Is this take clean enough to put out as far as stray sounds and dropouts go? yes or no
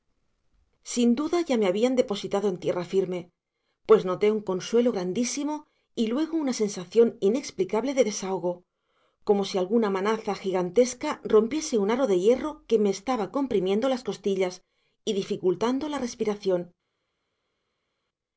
yes